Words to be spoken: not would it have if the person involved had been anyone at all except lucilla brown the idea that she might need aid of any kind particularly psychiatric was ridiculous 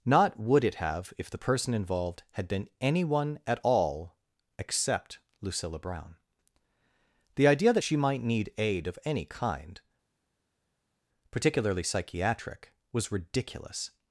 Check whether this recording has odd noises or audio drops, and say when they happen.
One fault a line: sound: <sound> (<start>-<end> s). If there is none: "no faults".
no faults